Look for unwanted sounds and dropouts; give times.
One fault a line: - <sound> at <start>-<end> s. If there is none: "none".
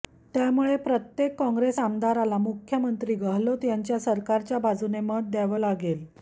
none